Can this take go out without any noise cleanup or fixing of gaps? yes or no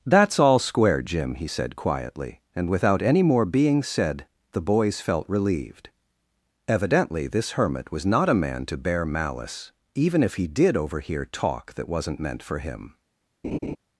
no